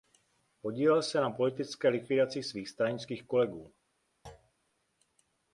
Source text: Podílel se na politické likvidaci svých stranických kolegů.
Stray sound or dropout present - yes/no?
yes